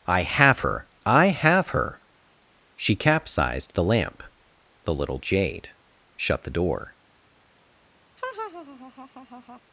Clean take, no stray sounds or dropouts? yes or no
no